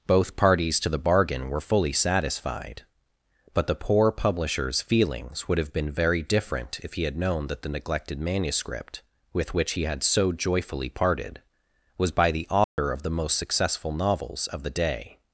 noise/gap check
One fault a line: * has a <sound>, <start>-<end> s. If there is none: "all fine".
* has a dropout, 12.6-12.8 s